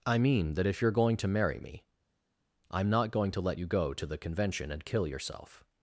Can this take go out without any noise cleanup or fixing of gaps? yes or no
yes